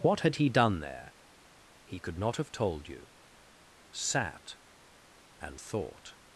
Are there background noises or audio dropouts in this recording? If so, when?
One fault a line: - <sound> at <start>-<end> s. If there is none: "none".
none